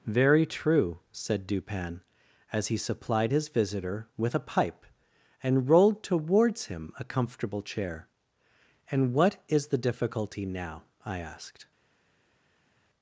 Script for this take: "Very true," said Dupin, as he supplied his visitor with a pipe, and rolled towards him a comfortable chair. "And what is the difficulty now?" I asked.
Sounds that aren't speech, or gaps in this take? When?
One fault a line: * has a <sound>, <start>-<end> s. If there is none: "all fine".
all fine